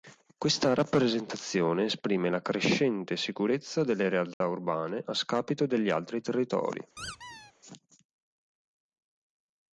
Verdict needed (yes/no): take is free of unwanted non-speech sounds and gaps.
no